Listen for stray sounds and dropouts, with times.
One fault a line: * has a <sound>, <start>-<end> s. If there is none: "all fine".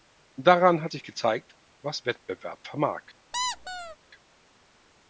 * has a squeak, 3.3-4.0 s